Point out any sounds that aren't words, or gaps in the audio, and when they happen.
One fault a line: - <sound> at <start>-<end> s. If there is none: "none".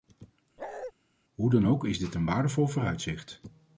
- bark at 0.6-0.9 s